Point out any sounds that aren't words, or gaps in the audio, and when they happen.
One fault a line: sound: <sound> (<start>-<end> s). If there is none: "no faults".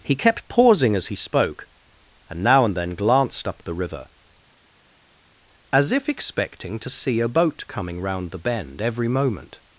no faults